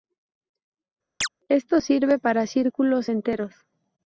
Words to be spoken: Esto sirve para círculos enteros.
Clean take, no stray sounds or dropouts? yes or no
no